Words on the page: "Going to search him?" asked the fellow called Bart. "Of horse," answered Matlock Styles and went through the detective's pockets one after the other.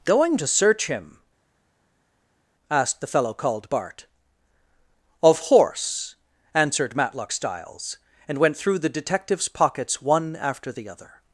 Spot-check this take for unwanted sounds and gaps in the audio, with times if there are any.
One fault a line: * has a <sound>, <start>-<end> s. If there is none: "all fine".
all fine